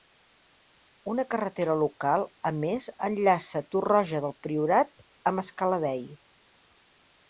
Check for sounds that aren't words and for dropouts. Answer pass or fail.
pass